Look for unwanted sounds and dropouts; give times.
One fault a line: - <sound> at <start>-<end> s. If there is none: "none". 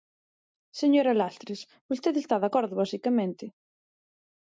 none